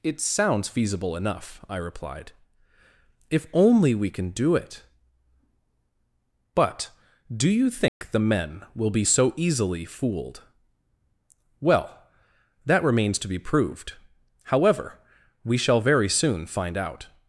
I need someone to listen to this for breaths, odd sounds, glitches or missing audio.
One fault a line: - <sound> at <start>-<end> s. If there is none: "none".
- dropout at 7.9-8.0 s